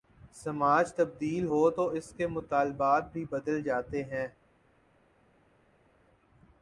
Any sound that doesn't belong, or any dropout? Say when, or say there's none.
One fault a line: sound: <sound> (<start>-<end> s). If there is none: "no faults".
no faults